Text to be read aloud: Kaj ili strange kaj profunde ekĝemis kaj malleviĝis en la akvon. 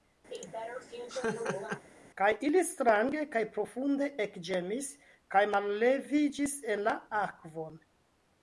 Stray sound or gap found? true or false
true